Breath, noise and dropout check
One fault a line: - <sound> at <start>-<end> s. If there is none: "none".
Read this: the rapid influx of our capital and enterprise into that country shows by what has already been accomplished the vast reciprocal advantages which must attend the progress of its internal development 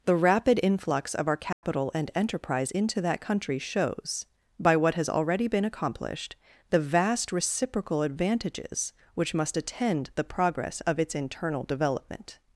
- dropout at 1.5-1.6 s